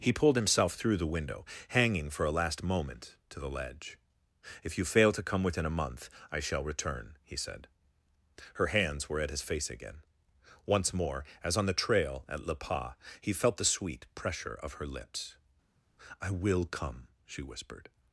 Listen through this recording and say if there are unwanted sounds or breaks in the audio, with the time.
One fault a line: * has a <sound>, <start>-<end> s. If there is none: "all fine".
all fine